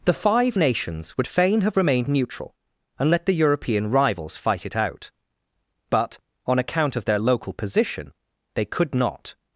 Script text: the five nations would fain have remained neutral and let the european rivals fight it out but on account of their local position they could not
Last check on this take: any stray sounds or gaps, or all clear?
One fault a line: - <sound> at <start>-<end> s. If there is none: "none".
none